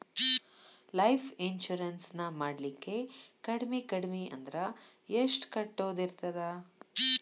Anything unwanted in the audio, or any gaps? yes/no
no